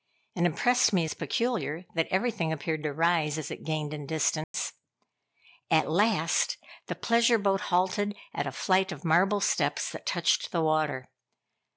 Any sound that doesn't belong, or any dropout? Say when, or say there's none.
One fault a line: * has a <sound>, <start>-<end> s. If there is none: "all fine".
* has a dropout, 4.4-4.5 s